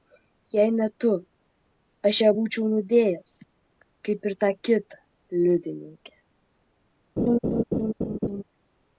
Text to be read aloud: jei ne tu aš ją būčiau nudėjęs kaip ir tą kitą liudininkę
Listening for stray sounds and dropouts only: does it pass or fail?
fail